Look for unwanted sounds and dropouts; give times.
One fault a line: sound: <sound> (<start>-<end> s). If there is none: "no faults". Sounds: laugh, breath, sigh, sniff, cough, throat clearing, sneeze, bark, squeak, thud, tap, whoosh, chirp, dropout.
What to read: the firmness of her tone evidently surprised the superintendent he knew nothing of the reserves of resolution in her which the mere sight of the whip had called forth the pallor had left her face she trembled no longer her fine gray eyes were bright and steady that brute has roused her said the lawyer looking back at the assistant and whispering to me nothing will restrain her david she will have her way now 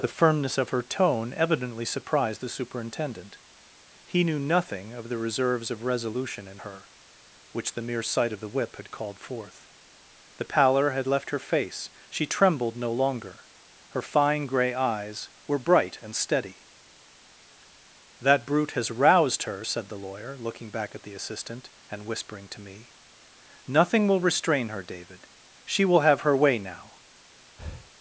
sound: breath (27.6-27.9 s)